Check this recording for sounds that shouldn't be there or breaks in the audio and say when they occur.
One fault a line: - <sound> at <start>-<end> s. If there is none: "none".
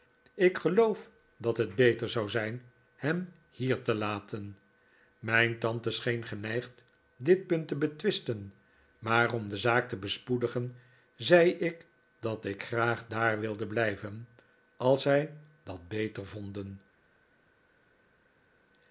none